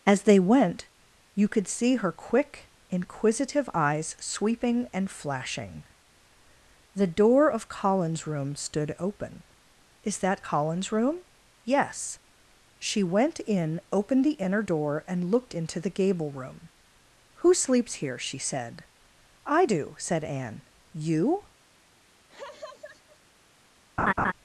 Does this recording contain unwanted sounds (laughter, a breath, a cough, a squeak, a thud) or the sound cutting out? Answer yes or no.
yes